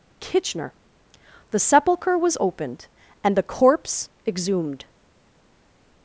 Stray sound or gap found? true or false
false